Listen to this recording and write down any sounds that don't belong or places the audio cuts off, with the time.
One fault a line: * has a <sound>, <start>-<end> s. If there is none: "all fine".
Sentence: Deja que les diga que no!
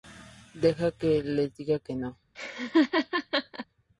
* has a laugh, 2.3-3.7 s